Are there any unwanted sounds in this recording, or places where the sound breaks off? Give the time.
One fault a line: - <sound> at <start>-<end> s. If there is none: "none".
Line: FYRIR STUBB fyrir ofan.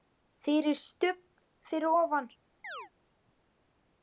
- chirp at 2.6-2.9 s